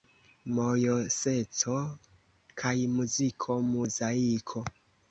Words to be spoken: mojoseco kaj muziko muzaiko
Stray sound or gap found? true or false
false